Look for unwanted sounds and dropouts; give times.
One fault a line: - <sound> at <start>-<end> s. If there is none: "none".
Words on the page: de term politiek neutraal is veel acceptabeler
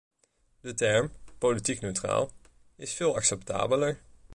none